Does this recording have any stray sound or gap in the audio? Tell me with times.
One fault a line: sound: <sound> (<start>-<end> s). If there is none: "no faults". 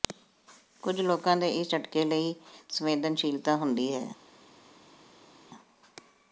no faults